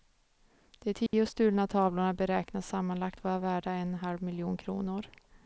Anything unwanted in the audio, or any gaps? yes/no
yes